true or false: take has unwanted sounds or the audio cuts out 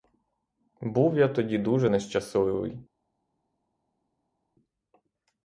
false